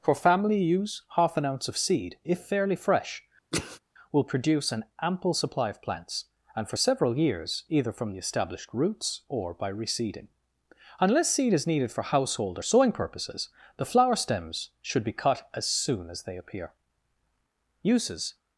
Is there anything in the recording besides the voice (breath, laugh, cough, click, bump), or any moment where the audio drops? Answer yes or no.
yes